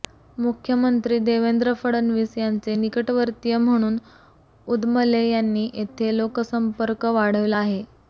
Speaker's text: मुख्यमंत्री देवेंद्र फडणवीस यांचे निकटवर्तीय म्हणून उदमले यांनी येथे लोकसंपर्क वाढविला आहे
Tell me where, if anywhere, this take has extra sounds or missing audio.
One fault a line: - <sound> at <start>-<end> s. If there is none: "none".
none